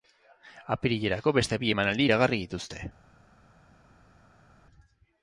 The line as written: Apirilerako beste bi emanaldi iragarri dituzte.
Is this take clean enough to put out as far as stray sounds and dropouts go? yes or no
yes